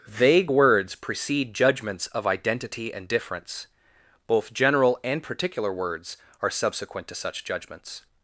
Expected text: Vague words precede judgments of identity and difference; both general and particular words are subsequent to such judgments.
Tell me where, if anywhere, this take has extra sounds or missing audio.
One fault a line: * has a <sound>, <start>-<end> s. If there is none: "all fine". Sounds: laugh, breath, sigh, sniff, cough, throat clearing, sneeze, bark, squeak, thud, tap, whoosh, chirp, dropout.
all fine